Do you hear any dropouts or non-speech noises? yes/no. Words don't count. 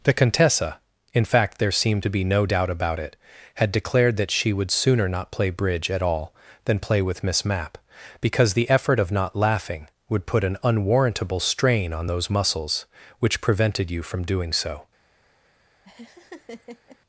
yes